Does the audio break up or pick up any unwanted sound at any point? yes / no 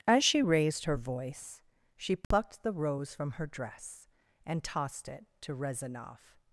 yes